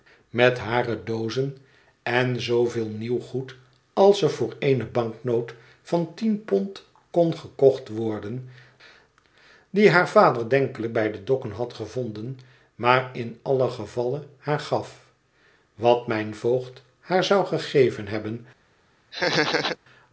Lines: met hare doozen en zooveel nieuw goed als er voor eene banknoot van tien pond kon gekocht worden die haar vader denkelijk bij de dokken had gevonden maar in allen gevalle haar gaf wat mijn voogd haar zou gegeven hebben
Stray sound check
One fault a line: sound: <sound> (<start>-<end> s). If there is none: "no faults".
sound: laugh (19.1-19.8 s)